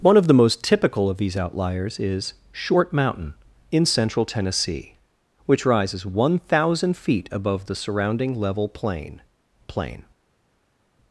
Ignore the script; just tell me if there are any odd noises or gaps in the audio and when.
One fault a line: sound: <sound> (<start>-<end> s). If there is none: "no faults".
no faults